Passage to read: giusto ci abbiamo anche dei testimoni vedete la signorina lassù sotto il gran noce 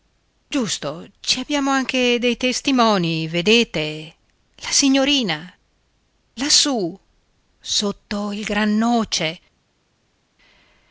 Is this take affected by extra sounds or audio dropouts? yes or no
no